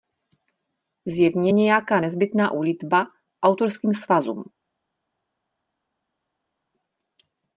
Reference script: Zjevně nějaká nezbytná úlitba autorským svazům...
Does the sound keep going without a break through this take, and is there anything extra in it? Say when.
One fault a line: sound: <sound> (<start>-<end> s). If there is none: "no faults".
no faults